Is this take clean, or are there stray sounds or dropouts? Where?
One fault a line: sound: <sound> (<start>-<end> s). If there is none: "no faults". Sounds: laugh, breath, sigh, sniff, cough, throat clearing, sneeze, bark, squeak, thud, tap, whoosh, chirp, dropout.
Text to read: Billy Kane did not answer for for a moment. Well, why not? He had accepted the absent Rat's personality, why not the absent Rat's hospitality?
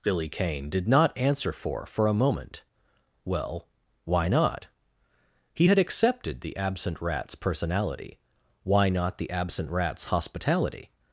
no faults